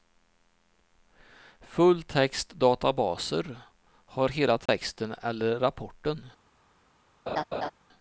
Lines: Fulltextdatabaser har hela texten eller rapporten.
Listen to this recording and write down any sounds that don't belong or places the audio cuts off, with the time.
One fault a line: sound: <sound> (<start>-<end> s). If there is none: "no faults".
sound: dropout (4.7-4.7 s)
sound: laugh (7.3-7.7 s)